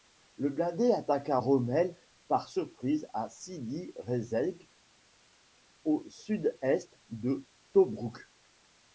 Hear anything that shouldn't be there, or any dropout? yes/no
no